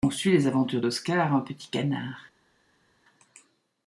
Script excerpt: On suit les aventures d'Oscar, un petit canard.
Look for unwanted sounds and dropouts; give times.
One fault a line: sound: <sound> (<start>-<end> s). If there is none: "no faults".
no faults